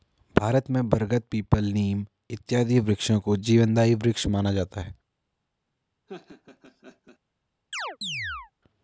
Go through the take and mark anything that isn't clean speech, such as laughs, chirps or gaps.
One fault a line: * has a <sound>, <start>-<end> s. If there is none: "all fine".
* has a laugh, 6.1-7.2 s
* has a chirp, 7.7-8.5 s